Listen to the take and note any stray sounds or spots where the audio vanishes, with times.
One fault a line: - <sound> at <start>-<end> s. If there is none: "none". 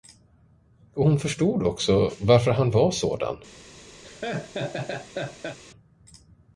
- laugh at 4.0-5.6 s